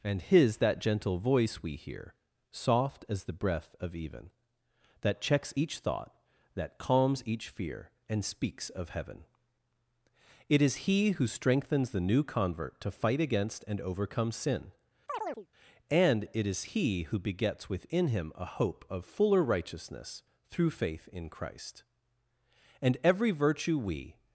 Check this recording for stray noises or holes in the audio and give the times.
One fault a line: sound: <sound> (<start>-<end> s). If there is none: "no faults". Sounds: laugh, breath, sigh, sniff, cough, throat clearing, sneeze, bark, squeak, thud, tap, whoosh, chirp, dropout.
sound: chirp (15.1-15.5 s)